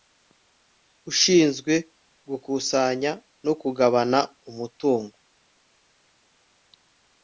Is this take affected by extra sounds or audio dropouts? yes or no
no